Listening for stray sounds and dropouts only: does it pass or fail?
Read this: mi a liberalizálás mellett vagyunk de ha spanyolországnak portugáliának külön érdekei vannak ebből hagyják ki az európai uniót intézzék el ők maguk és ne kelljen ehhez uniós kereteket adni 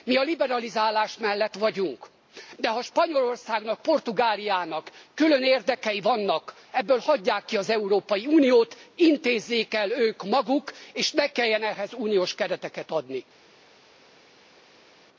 pass